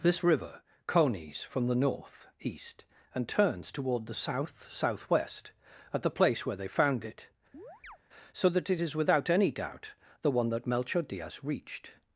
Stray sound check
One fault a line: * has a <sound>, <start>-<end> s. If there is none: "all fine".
* has a chirp, 7.5-8.0 s